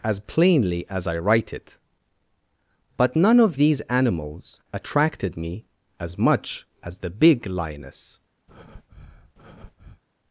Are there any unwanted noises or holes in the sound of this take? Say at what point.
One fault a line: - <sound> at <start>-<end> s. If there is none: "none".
- breath at 8.5-10.0 s